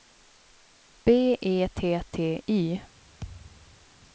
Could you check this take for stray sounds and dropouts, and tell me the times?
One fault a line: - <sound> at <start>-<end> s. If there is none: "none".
- thud at 3.2-3.8 s